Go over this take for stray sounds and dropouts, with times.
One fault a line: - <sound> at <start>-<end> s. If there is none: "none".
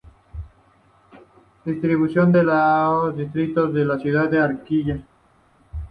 none